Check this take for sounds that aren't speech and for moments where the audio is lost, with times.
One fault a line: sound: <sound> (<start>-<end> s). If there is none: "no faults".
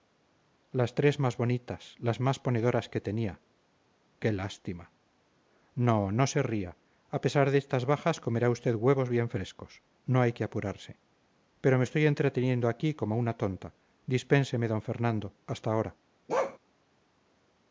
sound: bark (16.3-16.6 s)